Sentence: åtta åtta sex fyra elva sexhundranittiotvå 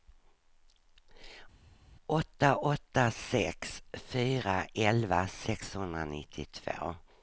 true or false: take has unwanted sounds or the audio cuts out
false